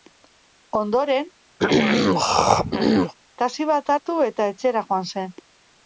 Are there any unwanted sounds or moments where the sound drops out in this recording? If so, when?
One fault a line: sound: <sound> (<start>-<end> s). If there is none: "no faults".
sound: throat clearing (1.6-3.1 s)